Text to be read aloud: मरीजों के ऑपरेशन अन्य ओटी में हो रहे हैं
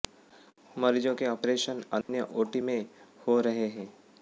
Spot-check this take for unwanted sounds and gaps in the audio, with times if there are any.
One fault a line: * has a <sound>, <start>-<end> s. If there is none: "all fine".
* has a dropout, 2.0-2.1 s